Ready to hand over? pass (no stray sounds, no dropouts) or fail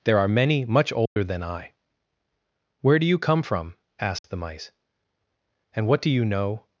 fail